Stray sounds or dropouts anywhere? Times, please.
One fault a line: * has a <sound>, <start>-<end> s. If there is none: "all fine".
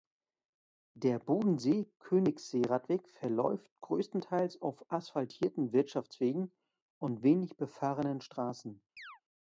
* has a chirp, 9.0-9.2 s